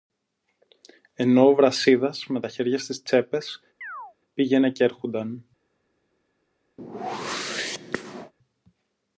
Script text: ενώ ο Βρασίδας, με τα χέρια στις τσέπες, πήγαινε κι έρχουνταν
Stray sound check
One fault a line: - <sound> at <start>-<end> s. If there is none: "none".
- chirp at 3.8-4.1 s
- whoosh at 6.8-8.3 s